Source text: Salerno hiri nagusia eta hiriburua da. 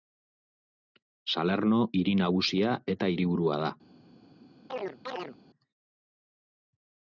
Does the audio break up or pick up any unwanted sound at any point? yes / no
yes